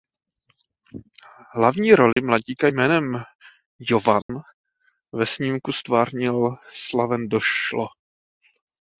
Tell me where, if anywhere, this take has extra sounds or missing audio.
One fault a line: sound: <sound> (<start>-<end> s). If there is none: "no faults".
sound: dropout (2.1-2.2 s)
sound: dropout (4.2-4.3 s)